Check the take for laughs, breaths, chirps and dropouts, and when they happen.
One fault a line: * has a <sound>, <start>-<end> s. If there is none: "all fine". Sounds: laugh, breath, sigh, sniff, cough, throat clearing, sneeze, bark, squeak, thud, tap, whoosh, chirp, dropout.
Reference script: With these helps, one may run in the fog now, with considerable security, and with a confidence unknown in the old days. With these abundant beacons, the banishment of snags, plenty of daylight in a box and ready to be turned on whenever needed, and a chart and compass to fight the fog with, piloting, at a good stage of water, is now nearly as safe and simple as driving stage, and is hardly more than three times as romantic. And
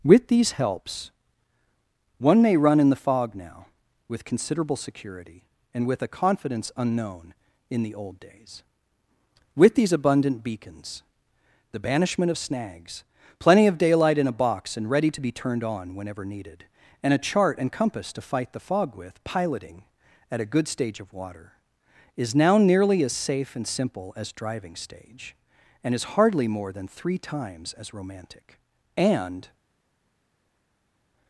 all fine